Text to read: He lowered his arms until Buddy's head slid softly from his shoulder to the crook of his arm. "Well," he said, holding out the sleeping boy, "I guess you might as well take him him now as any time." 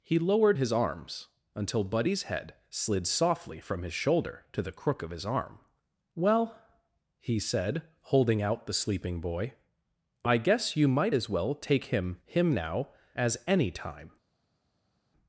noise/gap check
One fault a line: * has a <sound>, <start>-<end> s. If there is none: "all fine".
all fine